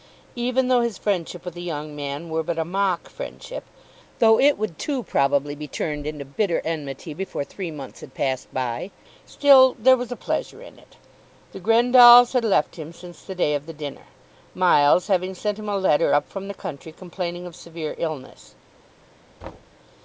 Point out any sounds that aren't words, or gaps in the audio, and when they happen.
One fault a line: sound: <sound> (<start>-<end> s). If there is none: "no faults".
sound: thud (19.4-19.8 s)